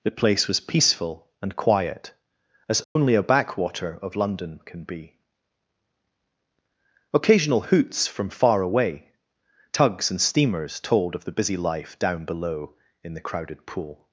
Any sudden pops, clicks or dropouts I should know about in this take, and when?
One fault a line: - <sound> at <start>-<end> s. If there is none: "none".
- dropout at 2.8-3.0 s